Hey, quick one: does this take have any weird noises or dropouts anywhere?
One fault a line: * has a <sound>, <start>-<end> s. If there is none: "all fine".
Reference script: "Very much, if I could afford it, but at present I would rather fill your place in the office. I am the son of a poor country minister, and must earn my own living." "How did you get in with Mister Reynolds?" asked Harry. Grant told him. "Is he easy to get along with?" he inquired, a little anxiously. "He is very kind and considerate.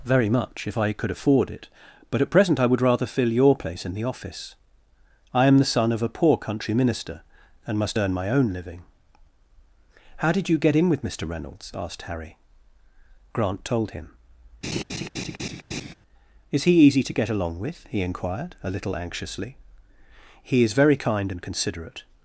* has a laugh, 14.6-15.9 s